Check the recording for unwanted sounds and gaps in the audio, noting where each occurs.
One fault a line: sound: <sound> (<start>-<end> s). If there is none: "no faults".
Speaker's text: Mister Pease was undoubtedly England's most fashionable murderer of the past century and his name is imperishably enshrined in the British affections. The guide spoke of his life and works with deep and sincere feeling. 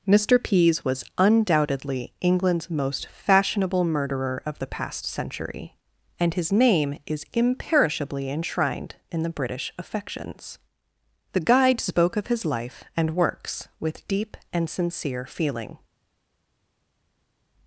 no faults